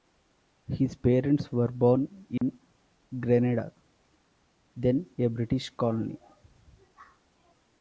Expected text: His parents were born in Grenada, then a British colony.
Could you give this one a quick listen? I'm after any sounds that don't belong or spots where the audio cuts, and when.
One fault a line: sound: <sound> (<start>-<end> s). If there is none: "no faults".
sound: dropout (2.4-2.4 s)